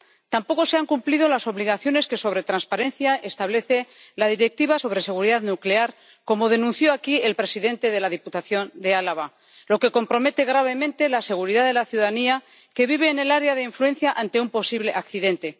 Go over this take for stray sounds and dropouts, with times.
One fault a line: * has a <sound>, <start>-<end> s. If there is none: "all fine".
all fine